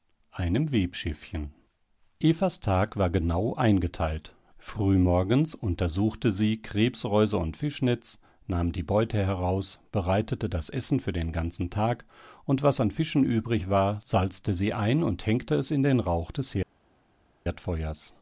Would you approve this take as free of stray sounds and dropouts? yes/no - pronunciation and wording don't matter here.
yes